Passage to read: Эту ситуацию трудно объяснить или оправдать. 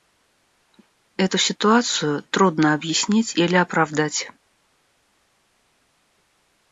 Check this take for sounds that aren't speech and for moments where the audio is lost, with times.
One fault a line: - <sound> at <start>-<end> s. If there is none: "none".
none